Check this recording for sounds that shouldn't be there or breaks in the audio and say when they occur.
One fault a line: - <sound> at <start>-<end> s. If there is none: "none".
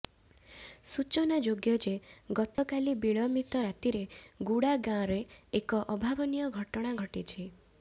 - dropout at 2.5-2.6 s